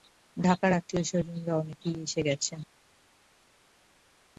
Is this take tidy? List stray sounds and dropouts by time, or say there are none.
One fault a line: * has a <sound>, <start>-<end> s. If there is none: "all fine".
all fine